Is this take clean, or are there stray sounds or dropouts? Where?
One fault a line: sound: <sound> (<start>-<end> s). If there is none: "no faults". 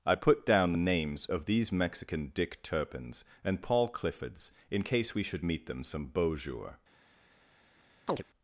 sound: chirp (8.1-8.2 s)